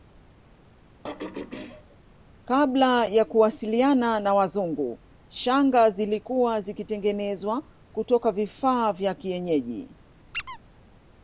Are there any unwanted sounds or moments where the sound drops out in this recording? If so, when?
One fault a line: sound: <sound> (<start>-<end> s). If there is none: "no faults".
sound: throat clearing (1.0-2.0 s)
sound: squeak (10.3-10.6 s)